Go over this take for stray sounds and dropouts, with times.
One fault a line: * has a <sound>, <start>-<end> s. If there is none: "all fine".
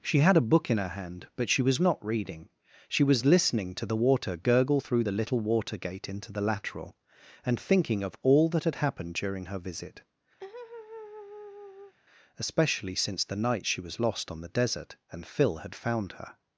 * has a laugh, 10.4-11.9 s